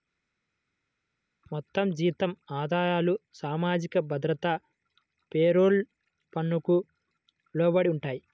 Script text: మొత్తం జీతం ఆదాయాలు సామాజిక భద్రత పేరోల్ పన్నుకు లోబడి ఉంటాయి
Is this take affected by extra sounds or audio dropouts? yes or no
no